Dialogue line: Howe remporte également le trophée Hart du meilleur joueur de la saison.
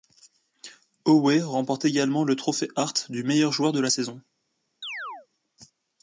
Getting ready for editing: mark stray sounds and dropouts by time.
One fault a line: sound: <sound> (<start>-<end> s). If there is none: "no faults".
sound: chirp (4.8-5.3 s)